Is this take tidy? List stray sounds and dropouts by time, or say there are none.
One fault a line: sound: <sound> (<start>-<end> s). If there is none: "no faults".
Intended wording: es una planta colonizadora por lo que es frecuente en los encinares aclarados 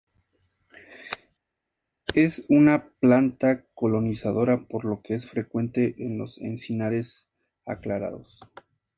no faults